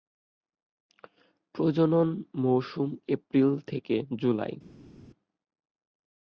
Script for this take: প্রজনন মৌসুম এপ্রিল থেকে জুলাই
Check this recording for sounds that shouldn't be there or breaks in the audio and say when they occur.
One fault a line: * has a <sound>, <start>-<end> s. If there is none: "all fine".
all fine